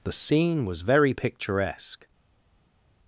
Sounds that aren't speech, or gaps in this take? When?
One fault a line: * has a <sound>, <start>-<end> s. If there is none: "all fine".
all fine